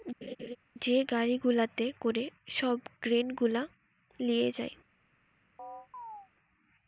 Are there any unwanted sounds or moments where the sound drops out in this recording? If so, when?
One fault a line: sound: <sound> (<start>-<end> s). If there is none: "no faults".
sound: laugh (0.2-0.6 s)
sound: chirp (5.6-6.3 s)